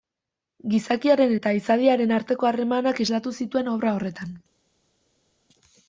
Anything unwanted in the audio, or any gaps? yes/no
no